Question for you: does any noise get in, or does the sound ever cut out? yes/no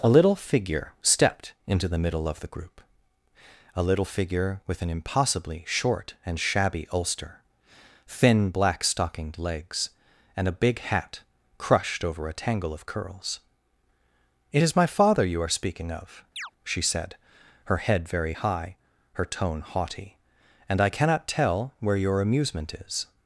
yes